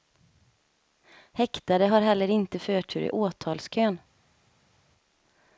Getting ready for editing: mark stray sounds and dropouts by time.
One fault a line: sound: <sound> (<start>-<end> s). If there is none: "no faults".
no faults